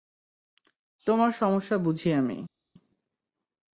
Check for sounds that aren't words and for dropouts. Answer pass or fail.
pass